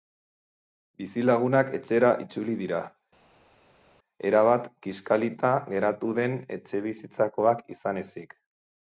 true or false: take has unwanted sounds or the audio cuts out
false